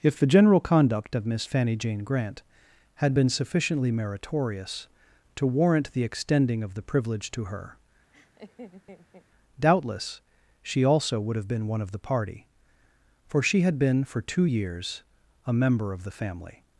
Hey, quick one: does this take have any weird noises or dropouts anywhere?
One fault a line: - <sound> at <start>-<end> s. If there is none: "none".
- laugh at 8.1-9.3 s